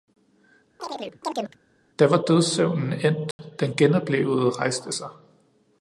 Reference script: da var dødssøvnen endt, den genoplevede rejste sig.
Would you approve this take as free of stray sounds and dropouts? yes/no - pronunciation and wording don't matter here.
no